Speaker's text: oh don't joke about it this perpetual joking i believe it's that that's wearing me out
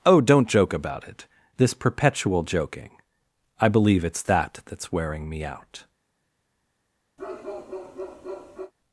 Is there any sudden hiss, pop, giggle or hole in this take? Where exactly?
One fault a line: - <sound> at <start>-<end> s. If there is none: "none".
- bark at 7.2-8.7 s